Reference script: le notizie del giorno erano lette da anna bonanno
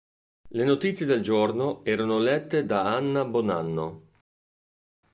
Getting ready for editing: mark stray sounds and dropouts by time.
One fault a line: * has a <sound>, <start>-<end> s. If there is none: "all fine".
all fine